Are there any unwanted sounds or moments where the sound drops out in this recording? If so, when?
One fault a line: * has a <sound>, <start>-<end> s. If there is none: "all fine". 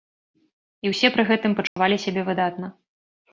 * has a dropout, 1.7-1.8 s